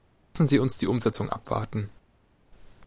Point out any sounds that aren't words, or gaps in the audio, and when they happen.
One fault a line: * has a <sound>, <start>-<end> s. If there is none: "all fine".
all fine